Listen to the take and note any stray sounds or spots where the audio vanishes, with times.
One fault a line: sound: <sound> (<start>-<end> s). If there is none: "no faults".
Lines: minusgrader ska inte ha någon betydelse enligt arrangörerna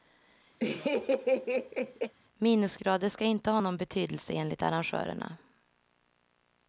sound: laugh (0.6-2.1 s)